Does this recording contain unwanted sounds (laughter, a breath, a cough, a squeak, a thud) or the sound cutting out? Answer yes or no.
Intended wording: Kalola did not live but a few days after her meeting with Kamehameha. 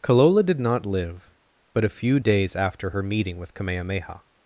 no